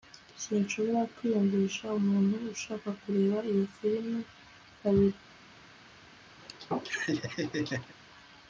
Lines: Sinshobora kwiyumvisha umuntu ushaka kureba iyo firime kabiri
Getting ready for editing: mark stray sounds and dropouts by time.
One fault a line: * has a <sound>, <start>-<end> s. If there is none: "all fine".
* has a laugh, 6.4-7.9 s